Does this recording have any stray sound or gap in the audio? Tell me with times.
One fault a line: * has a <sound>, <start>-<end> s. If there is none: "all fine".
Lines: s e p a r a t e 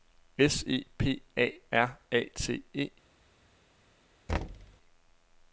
* has a thud, 4.3-4.8 s